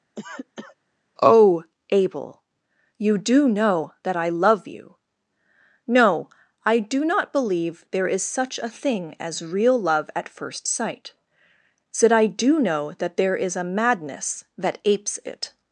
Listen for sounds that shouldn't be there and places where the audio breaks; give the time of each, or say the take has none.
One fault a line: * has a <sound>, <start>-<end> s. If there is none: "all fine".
* has a cough, 0.2-0.8 s